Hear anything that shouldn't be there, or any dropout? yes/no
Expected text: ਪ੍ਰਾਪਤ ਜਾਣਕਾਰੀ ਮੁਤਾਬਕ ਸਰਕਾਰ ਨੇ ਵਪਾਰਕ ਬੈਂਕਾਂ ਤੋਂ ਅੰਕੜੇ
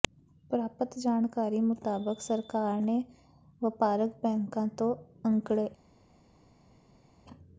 no